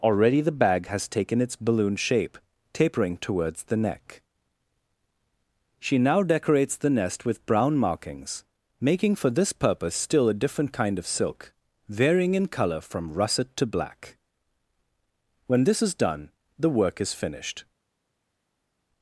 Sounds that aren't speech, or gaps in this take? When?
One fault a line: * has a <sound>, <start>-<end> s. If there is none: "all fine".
all fine